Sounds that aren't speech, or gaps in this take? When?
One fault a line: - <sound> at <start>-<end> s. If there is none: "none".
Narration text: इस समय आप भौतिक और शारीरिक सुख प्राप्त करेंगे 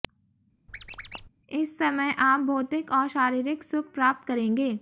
- squeak at 0.7-1.3 s